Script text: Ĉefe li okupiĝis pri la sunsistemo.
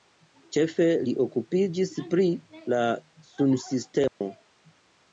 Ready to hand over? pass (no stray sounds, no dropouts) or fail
fail